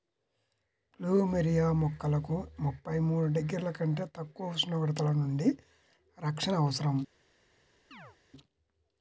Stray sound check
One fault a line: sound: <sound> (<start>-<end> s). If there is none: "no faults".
sound: chirp (7.9-8.2 s)